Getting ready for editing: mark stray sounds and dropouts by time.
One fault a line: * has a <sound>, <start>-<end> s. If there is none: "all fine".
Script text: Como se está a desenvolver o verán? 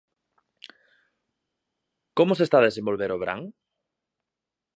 all fine